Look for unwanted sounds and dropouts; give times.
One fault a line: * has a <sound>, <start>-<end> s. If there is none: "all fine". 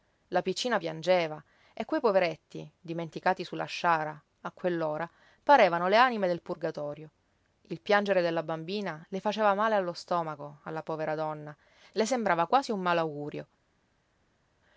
all fine